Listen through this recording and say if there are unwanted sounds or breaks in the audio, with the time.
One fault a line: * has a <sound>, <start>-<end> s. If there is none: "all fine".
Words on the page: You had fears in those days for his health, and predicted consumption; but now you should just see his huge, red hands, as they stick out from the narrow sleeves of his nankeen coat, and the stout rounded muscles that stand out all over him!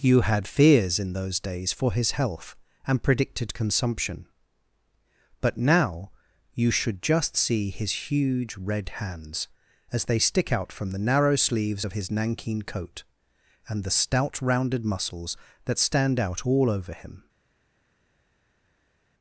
all fine